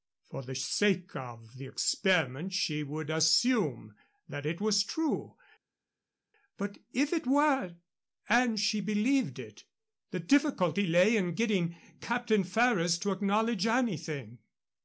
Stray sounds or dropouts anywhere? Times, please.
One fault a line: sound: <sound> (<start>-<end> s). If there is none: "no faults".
no faults